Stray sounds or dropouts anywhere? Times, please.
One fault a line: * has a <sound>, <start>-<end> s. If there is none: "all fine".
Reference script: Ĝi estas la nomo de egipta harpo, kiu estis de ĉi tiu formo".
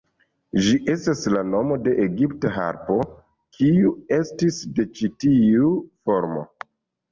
all fine